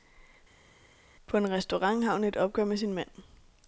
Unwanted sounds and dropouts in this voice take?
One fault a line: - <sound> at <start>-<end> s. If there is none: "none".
none